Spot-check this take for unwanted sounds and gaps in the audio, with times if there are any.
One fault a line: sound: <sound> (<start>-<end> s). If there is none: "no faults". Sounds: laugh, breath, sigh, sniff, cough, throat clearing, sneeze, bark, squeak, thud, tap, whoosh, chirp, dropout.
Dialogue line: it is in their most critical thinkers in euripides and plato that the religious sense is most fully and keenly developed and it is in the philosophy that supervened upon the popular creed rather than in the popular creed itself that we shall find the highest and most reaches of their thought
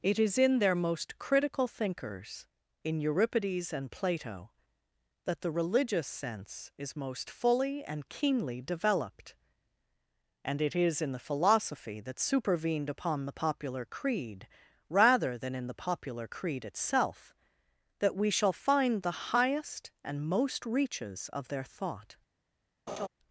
sound: laugh (22.9-23.1 s)